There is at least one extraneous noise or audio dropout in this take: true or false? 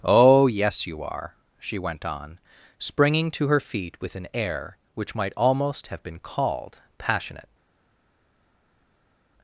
false